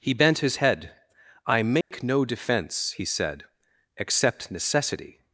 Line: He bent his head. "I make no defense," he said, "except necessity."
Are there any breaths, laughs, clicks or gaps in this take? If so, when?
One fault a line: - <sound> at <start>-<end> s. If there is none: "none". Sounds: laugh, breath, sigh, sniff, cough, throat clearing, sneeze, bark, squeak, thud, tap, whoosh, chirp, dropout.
- dropout at 1.8-1.9 s